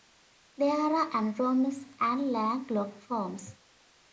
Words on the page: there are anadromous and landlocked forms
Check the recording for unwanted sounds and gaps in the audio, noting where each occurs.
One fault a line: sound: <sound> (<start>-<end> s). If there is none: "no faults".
no faults